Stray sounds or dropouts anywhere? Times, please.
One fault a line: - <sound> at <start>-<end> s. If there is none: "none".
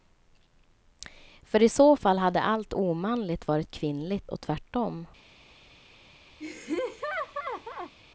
- laugh at 6.4-7.9 s